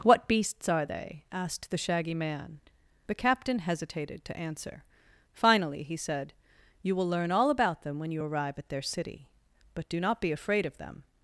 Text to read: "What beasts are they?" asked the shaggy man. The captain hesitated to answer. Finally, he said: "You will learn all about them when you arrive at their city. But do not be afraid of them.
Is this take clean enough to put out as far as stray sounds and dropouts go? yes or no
yes